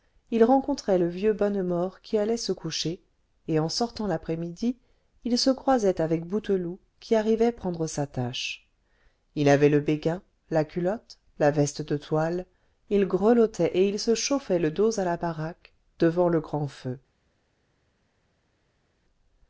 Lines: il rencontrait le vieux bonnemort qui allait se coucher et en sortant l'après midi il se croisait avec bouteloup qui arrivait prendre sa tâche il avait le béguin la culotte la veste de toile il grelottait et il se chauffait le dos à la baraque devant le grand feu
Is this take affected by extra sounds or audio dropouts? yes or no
no